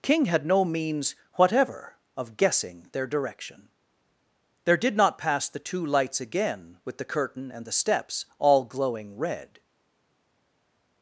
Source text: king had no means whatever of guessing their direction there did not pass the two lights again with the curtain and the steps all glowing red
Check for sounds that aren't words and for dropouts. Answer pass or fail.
pass